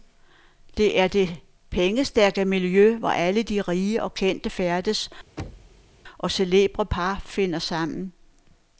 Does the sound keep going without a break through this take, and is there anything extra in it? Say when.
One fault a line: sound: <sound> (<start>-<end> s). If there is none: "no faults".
sound: thud (5.4-5.9 s)